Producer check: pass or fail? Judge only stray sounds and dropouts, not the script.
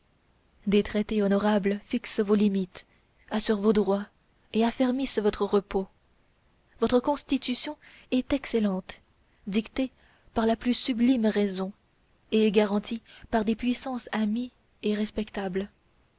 pass